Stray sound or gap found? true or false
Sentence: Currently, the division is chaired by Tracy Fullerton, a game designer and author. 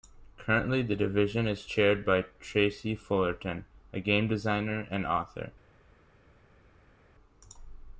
false